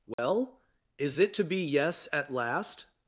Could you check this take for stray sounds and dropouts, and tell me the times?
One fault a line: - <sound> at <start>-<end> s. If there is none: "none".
- dropout at 0.1-0.2 s